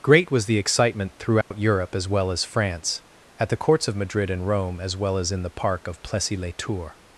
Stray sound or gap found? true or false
true